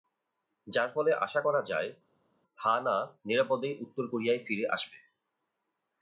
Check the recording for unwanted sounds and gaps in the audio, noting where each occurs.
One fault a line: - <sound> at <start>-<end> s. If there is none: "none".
none